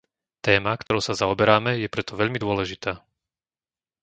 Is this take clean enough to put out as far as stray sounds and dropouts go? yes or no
no